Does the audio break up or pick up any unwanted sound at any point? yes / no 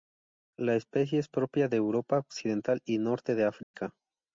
yes